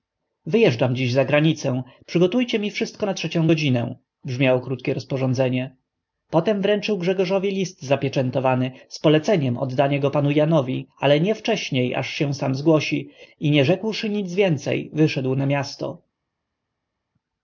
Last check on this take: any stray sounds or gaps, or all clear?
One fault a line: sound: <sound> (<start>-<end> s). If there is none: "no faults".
no faults